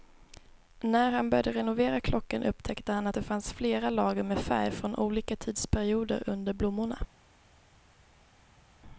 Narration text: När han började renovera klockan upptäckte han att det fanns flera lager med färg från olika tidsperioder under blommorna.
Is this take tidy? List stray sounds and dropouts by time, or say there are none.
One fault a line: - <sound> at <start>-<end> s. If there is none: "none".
none